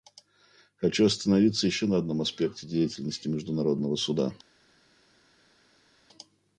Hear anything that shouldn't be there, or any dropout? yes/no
no